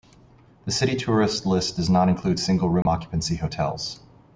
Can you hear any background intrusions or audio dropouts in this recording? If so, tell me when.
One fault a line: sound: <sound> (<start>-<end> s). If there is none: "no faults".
sound: dropout (2.8-2.9 s)